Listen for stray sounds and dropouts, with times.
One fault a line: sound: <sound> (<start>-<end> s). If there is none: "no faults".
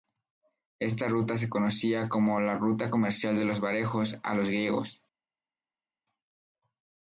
no faults